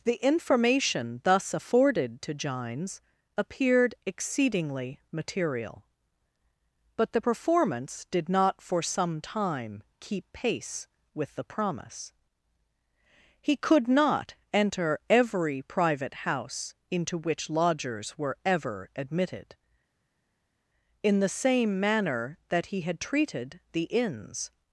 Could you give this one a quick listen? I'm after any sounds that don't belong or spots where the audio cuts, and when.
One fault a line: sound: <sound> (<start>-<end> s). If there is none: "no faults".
no faults